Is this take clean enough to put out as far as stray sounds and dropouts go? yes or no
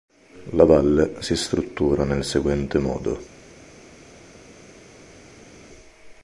yes